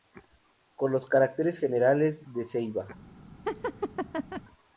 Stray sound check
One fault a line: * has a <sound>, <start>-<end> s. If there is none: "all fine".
* has a laugh, 3.5-4.4 s